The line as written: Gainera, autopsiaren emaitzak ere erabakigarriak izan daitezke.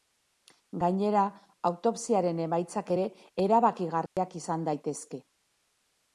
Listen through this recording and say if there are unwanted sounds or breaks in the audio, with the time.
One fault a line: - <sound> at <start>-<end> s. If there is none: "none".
- dropout at 4.1-4.2 s